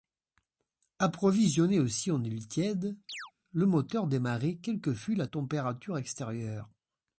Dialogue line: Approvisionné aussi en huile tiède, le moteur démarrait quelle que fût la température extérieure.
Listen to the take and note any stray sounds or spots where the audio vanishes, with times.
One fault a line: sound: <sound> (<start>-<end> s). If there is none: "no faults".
sound: chirp (3.1-3.3 s)